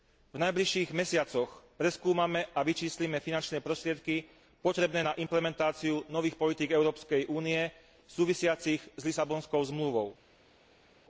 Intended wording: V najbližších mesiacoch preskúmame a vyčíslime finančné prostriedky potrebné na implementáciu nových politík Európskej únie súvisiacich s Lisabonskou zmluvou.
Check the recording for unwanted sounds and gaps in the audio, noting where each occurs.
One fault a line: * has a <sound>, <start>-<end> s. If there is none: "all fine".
all fine